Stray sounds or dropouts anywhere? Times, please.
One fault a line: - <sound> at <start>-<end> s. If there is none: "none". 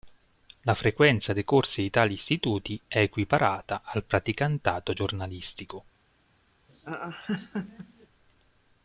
- laugh at 6.7-8.1 s